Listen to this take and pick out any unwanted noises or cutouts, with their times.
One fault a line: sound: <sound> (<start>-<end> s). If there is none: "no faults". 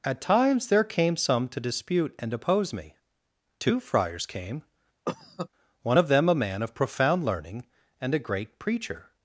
sound: cough (5.0-5.5 s)